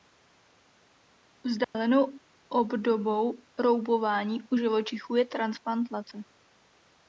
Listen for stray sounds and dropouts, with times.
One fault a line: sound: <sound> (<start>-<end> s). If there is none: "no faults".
sound: dropout (1.6-1.7 s)